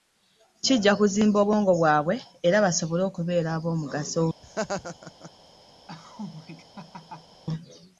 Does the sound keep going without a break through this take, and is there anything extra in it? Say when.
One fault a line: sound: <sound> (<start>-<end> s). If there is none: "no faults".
sound: laugh (4.4-5.3 s)
sound: laugh (5.9-7.4 s)